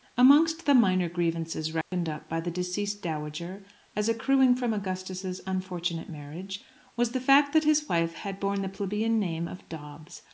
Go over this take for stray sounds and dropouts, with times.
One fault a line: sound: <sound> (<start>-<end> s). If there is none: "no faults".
sound: dropout (1.8-1.9 s)